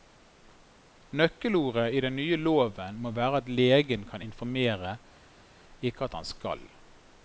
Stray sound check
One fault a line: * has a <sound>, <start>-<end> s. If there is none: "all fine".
all fine